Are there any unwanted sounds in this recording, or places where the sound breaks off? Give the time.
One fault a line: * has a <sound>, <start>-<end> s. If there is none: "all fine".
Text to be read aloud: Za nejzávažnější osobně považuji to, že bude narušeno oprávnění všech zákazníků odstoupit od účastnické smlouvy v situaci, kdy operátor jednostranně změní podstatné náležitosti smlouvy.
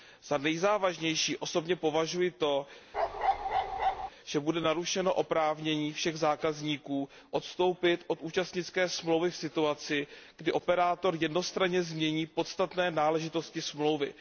* has a bark, 2.9-4.1 s